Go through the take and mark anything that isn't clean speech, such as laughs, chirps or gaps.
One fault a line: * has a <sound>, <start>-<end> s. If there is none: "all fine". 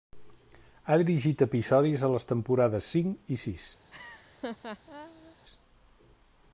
* has a laugh, 3.9-5.4 s